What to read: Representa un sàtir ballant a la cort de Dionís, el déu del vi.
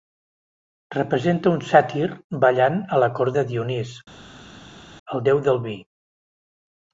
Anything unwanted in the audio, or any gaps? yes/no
no